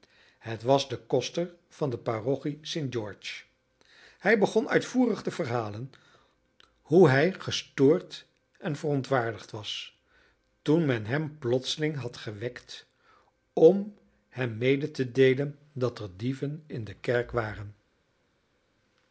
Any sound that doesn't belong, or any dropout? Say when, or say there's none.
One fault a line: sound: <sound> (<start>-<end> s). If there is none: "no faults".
no faults